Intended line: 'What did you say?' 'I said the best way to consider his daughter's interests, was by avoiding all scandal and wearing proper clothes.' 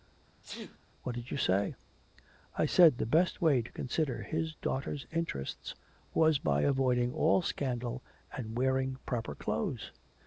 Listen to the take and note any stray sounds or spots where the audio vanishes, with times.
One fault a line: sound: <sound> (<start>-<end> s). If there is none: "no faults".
sound: sneeze (0.4-0.8 s)